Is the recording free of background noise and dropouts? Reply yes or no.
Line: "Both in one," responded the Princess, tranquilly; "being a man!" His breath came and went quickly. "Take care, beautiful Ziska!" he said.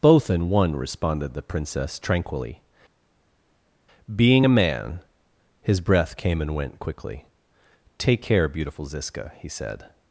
yes